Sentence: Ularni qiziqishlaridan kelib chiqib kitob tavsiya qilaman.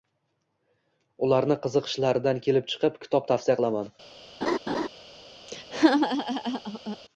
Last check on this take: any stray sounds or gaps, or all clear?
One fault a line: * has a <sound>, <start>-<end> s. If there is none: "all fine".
* has a laugh, 4.4-4.9 s
* has a laugh, 5.5-7.0 s